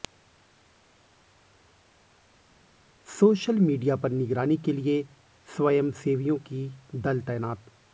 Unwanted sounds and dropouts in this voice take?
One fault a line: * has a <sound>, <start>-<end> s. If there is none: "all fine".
all fine